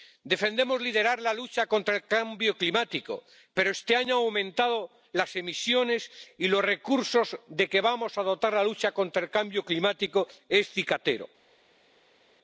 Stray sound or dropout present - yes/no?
no